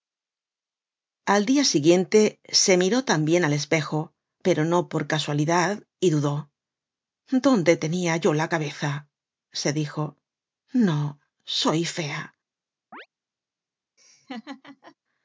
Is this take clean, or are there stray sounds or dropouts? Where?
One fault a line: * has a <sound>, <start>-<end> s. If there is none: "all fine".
* has a chirp, 12.9-13.1 s
* has a laugh, 14.0-15.0 s